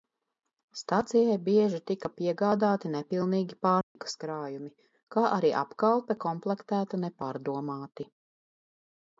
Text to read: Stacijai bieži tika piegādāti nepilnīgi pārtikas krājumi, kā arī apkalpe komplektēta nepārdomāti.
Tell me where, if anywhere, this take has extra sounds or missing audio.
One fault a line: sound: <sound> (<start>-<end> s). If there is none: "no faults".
sound: dropout (3.8-4.0 s)